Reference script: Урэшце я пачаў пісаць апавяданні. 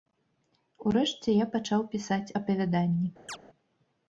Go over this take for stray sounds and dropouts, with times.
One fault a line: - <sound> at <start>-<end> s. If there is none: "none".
- chirp at 3.3-3.4 s